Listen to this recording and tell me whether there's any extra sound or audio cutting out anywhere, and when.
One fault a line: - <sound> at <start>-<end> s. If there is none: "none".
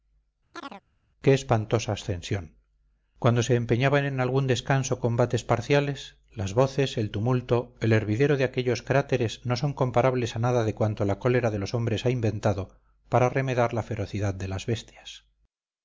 - chirp at 0.5-0.8 s